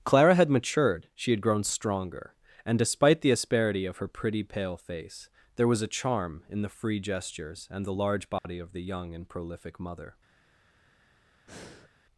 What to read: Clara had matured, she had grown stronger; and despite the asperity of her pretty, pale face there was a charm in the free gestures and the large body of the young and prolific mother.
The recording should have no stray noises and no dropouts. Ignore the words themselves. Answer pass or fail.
fail